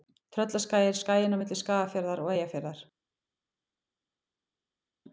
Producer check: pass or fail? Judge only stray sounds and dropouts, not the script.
pass